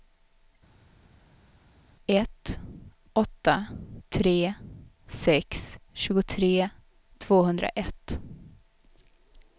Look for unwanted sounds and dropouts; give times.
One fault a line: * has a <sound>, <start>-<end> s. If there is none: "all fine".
all fine